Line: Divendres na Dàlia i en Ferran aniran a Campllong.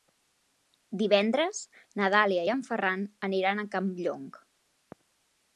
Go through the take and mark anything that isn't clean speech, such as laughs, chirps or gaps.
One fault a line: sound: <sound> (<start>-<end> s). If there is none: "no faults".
no faults